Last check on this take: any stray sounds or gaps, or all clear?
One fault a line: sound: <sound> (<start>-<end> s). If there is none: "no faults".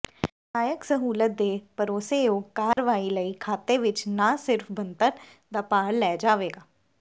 sound: dropout (2.7-2.8 s)